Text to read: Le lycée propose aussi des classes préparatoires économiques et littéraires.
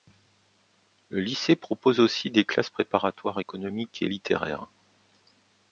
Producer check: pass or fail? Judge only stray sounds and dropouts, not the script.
pass